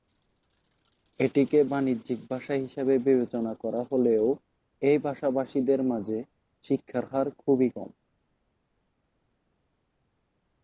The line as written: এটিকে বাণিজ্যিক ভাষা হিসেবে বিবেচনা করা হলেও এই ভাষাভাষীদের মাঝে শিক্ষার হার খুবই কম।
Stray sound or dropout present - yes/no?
no